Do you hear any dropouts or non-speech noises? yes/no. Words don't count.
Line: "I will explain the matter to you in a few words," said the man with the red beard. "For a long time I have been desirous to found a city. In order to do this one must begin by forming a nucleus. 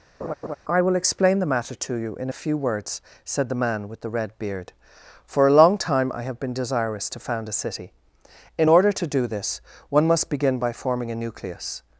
yes